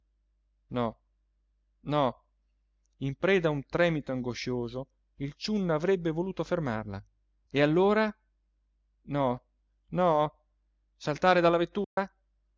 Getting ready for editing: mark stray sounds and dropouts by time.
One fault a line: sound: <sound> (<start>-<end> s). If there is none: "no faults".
sound: dropout (11.8-12.0 s)